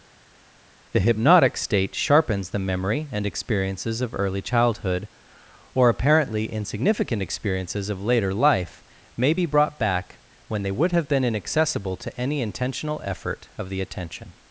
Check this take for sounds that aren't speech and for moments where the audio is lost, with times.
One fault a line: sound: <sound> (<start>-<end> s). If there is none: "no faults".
no faults